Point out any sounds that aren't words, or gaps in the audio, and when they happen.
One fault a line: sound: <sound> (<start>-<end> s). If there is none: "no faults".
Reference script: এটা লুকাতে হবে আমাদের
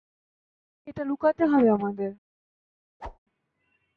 sound: whoosh (3.0-3.2 s)